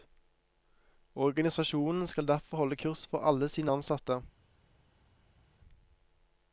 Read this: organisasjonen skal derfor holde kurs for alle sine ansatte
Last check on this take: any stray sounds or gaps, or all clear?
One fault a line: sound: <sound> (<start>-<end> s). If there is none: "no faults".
no faults